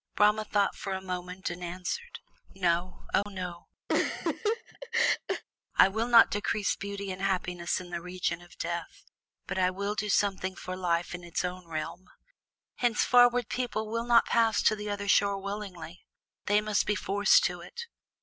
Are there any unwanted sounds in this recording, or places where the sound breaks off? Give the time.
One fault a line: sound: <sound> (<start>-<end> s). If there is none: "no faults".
sound: dropout (3.2-3.3 s)
sound: laugh (3.9-5.4 s)